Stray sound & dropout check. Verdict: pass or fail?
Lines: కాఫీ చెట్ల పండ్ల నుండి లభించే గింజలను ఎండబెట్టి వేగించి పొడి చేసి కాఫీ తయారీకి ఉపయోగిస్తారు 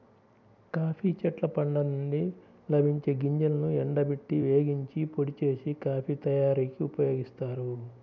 pass